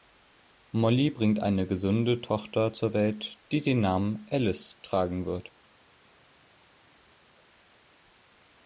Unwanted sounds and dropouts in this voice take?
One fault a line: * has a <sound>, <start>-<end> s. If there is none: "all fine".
all fine